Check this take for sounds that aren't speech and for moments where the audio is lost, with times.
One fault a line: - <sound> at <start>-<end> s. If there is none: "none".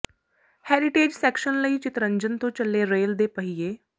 none